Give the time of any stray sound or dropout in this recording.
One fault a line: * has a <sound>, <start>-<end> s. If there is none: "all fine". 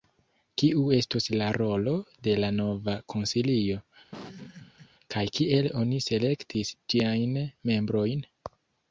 * has a laugh, 4.1-4.9 s